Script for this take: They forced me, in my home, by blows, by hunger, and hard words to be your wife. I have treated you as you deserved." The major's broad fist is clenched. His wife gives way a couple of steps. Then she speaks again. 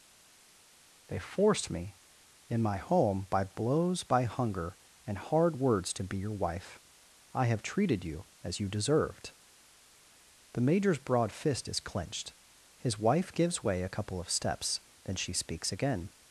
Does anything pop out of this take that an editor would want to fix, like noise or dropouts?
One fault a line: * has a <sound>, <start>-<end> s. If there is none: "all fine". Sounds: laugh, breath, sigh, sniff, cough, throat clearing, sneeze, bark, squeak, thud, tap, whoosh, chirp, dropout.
all fine